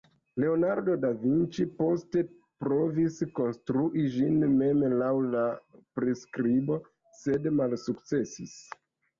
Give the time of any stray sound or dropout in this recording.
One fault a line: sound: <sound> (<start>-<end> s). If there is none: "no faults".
no faults